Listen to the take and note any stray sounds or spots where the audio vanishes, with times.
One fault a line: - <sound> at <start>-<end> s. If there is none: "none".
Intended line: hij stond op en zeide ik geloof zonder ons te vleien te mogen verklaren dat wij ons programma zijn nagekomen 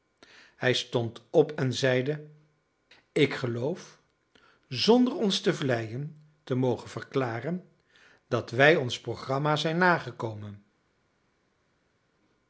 none